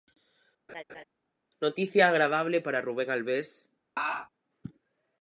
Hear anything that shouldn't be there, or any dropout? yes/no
yes